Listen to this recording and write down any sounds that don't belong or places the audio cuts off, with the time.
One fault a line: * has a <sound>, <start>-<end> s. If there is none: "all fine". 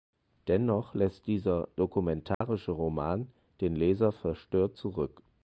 * has a dropout, 2.3-2.4 s